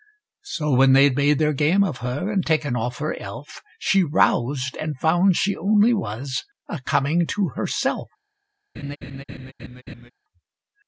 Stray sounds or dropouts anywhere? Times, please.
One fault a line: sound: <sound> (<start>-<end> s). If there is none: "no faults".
sound: laugh (8.7-10.1 s)